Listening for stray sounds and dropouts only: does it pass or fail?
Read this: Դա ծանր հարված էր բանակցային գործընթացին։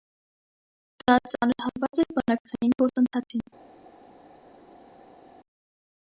pass